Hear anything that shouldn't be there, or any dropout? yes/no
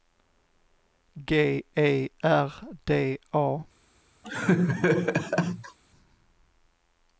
yes